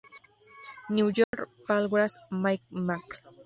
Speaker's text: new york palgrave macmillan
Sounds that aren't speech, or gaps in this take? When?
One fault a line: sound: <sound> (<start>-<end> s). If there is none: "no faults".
sound: dropout (1.2-1.3 s)